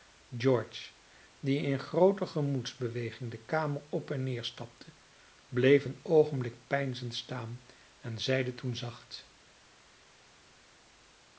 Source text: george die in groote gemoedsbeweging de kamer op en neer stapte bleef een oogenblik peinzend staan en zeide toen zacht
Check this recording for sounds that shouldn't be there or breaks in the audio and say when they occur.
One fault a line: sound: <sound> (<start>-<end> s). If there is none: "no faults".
no faults